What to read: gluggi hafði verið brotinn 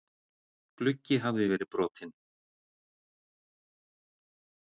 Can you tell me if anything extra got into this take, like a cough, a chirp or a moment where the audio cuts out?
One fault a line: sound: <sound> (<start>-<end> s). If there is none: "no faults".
no faults